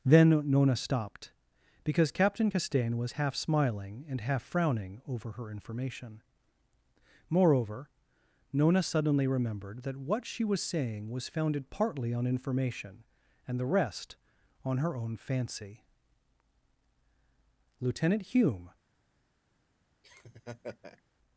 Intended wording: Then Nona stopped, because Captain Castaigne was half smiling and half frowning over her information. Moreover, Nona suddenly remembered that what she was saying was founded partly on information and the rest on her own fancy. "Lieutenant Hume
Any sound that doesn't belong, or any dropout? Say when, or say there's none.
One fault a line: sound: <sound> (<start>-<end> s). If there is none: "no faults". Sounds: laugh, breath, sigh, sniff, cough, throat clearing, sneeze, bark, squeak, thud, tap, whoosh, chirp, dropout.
sound: laugh (20.0-21.0 s)